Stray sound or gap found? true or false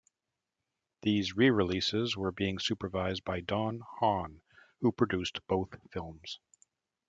false